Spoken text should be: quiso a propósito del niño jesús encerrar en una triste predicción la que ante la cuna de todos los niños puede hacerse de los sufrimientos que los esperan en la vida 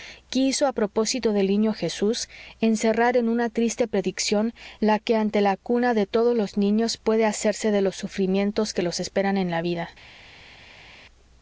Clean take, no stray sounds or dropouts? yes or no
yes